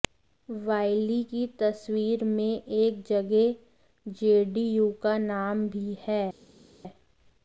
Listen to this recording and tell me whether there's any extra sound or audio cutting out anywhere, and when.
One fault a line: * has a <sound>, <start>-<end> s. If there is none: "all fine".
all fine